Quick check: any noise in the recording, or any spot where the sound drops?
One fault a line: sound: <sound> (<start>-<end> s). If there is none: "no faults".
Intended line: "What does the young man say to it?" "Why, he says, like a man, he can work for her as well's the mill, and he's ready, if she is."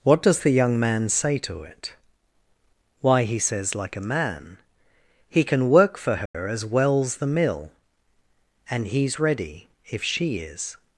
sound: dropout (6.3-6.3 s)